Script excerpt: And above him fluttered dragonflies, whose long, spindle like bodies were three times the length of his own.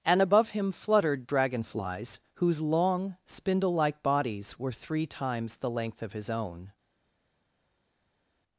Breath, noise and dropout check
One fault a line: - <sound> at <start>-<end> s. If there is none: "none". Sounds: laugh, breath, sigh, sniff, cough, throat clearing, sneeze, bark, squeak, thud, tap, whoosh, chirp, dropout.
none